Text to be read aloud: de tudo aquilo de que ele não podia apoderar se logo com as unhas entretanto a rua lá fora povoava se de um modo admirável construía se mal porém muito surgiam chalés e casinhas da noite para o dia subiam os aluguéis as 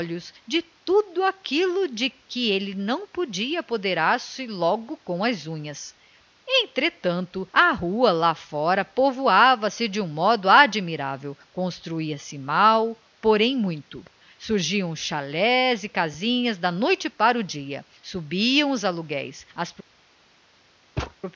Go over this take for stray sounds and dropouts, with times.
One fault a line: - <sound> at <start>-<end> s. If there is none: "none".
- thud at 21.0-21.1 s